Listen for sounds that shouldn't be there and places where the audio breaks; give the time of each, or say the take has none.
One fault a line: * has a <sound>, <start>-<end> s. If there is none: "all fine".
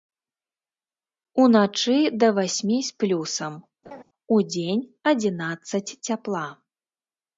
* has a laugh, 3.8-4.0 s